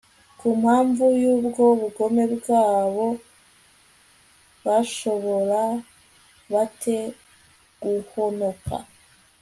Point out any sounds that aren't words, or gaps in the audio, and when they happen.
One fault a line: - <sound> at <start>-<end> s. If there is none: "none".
none